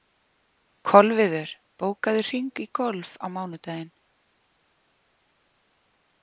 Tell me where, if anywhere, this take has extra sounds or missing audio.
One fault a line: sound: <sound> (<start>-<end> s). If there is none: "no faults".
no faults